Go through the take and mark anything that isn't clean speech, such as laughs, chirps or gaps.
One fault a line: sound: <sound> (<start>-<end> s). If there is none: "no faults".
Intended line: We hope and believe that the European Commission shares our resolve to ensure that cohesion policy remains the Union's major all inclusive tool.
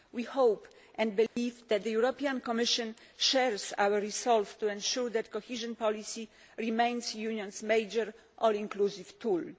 sound: dropout (1.3-1.4 s)